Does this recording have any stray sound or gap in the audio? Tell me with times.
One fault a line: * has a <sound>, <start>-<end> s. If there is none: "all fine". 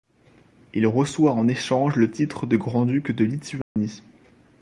* has a dropout, 3.6-3.8 s